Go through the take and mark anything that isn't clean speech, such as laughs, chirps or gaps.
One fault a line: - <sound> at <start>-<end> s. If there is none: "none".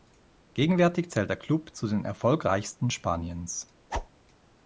- whoosh at 3.9-4.1 s